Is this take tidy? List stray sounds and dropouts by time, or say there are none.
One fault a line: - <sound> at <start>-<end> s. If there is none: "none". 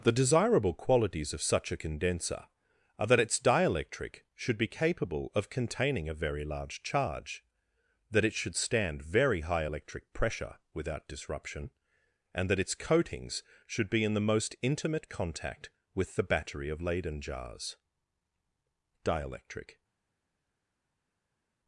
none